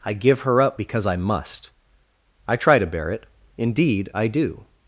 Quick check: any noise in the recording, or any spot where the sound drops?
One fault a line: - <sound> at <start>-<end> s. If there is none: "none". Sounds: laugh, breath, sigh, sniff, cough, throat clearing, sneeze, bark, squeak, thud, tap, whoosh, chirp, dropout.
none